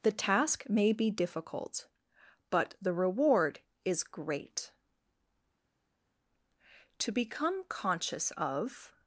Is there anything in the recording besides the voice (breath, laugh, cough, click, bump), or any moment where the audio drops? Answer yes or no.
no